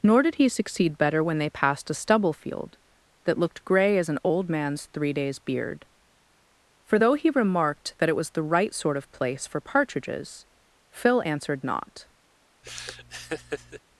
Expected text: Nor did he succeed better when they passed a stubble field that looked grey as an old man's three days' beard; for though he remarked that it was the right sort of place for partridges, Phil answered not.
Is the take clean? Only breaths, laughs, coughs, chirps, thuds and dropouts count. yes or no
no